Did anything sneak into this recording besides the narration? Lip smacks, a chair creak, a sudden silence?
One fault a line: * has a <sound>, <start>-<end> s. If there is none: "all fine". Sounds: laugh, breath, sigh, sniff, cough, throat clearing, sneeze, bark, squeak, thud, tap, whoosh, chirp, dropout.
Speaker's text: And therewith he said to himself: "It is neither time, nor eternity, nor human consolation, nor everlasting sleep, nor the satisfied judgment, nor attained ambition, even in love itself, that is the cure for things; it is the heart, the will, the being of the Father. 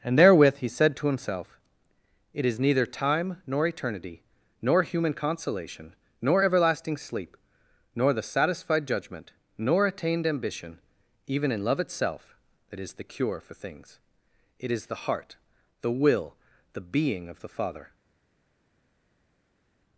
all fine